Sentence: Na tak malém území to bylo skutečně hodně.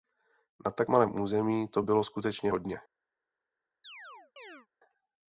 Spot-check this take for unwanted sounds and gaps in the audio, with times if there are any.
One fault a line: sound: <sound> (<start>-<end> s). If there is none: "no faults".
sound: chirp (3.8-4.7 s)